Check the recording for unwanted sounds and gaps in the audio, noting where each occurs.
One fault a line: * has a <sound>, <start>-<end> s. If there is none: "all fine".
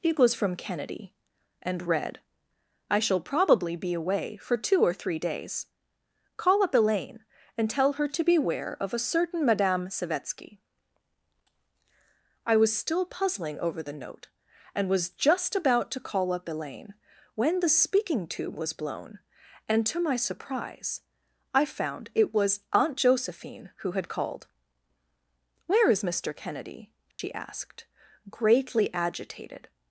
* has a dropout, 27.1-27.2 s